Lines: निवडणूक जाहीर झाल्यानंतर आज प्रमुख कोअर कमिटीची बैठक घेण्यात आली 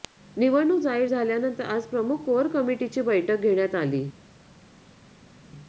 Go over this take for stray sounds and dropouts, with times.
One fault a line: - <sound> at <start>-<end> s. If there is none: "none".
none